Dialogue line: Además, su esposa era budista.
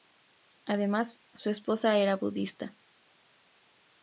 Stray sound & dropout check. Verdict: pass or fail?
pass